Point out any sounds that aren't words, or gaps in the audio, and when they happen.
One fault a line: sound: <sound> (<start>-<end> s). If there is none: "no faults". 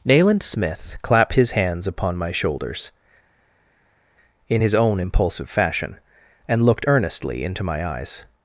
no faults